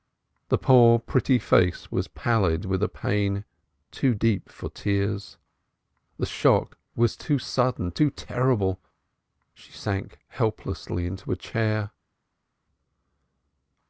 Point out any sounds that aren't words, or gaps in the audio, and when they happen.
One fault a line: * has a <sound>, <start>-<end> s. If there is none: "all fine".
all fine